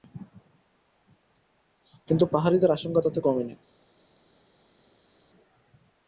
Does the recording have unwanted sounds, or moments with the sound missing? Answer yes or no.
no